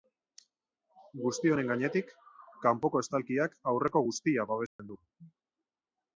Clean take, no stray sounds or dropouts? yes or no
no